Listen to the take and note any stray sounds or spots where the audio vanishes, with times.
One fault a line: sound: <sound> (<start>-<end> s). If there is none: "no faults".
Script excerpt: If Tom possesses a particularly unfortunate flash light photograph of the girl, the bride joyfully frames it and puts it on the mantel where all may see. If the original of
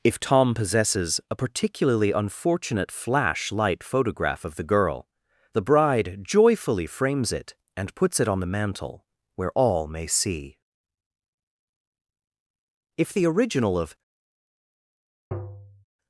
sound: tap (15.3-15.8 s)